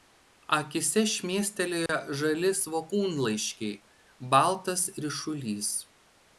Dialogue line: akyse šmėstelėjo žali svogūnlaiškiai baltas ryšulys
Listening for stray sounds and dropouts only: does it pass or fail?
fail